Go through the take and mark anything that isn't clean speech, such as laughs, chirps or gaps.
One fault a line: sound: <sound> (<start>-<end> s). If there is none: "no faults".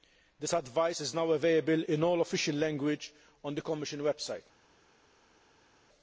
no faults